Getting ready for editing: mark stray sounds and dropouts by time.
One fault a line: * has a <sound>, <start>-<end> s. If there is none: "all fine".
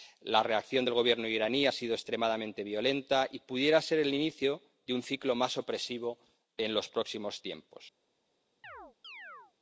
* has a chirp, 8.6-9.5 s